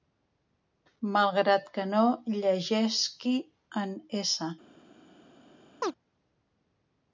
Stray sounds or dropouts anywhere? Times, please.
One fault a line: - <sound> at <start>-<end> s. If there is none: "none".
- chirp at 5.8-5.9 s